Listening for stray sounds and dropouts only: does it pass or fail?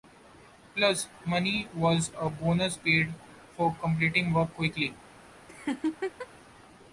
fail